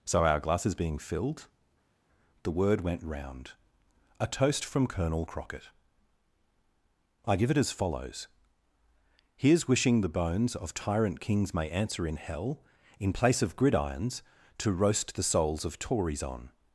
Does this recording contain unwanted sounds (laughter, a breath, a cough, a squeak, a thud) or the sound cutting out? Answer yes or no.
no